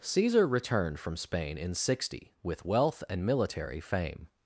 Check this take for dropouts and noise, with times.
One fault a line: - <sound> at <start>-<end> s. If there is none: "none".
none